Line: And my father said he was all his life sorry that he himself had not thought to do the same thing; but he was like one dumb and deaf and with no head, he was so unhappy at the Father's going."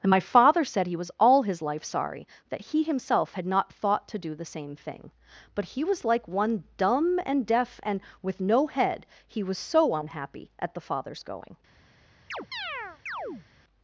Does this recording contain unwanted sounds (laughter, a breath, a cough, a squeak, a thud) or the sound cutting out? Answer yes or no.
yes